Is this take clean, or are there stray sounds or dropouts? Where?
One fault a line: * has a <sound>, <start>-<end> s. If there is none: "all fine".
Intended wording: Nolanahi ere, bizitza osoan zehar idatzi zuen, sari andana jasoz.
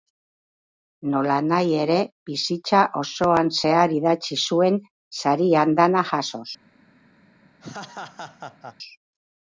* has a laugh, 7.6-8.8 s